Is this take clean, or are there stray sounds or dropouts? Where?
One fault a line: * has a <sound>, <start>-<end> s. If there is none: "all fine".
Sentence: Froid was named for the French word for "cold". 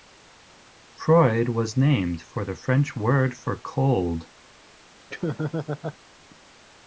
* has a laugh, 5.1-6.0 s